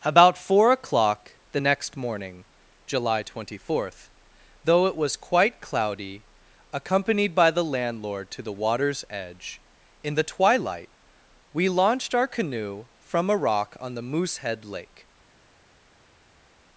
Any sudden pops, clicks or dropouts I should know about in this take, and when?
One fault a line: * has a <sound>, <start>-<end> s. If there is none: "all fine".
all fine